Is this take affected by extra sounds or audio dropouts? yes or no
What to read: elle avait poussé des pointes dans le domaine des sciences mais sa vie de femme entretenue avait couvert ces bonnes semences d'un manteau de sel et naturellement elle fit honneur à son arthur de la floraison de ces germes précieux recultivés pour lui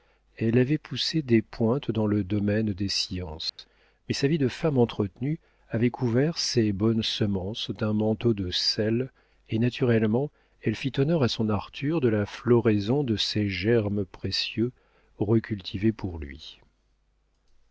yes